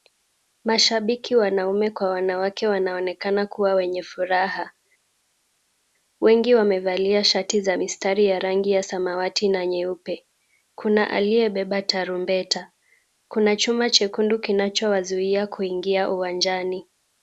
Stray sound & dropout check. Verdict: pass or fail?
pass